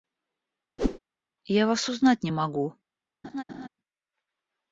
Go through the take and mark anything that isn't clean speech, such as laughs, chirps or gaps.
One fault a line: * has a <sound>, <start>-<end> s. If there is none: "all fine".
* has a whoosh, 0.8-1.0 s
* has a laugh, 3.2-3.7 s